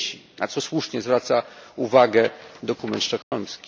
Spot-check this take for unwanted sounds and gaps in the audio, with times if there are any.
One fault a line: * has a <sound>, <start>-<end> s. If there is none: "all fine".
* has a dropout, 3.2-3.3 s